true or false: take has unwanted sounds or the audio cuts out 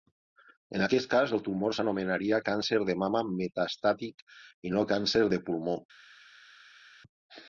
false